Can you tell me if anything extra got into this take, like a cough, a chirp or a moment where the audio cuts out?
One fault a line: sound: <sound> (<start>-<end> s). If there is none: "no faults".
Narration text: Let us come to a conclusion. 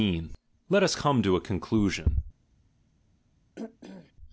sound: throat clearing (3.6-4.1 s)